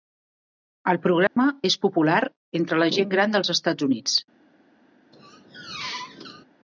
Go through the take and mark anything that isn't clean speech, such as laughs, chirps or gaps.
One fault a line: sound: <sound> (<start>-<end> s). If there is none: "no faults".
sound: dropout (1.3-1.4 s)
sound: squeak (5.1-6.5 s)